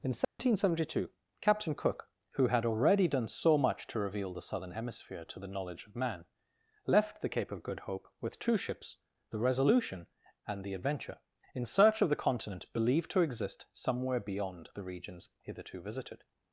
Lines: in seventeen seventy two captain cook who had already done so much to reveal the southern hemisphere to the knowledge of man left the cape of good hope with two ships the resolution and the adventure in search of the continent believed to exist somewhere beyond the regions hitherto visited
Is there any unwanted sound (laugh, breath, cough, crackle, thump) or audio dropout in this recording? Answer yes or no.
yes